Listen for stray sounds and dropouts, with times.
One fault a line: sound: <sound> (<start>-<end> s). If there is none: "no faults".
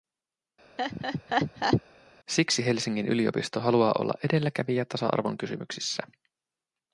sound: laugh (0.8-1.8 s)